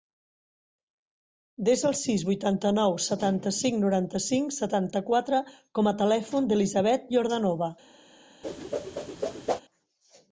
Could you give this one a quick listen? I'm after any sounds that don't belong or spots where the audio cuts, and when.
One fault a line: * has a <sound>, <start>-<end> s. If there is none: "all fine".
* has a whoosh, 8.4-9.6 s